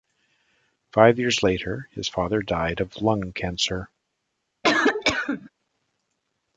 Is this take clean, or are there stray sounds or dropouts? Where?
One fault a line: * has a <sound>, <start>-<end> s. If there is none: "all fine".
* has a cough, 4.6-5.5 s